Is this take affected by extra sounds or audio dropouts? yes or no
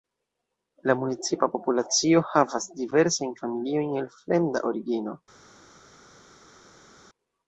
no